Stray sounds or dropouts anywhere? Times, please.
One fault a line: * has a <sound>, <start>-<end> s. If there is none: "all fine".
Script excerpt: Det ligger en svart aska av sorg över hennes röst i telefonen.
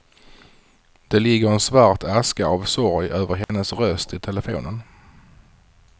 * has a dropout, 3.4-3.5 s